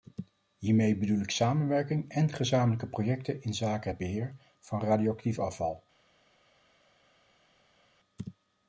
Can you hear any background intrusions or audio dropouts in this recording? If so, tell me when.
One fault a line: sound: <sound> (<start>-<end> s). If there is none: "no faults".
no faults